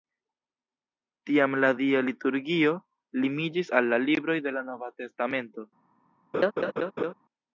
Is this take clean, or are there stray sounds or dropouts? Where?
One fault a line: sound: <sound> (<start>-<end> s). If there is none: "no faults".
sound: laugh (6.3-7.1 s)